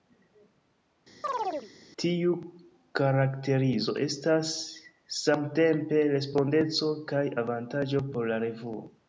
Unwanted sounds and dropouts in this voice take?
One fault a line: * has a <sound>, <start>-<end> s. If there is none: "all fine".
* has a chirp, 1.2-1.7 s